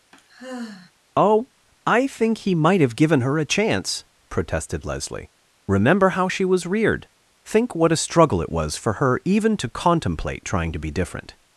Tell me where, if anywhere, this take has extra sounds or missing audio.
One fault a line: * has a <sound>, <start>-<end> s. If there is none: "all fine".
* has a sigh, 0.1-0.9 s